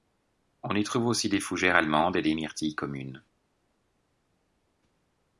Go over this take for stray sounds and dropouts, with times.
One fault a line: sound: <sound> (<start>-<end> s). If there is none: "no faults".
no faults